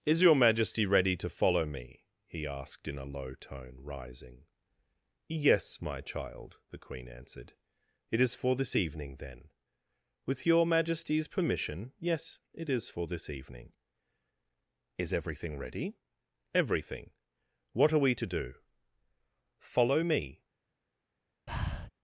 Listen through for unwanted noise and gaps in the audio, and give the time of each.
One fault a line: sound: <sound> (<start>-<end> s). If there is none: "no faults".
sound: breath (21.5-21.9 s)